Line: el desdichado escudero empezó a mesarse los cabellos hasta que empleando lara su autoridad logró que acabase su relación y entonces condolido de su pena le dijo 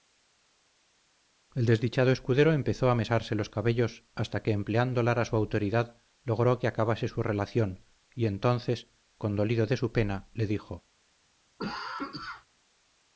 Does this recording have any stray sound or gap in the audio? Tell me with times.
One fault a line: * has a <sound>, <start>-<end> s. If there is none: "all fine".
* has a cough, 11.6-12.5 s